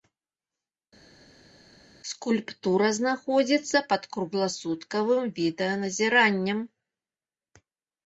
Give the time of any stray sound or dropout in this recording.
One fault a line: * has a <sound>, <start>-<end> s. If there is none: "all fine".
all fine